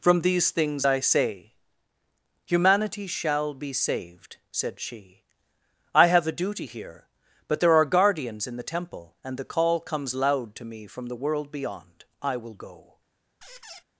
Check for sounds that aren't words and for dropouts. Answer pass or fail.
fail